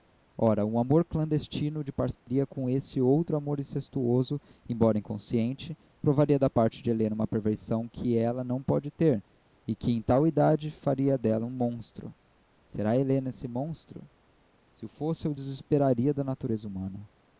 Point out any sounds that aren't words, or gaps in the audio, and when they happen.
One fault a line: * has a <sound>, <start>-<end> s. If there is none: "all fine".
* has a dropout, 2.1-2.3 s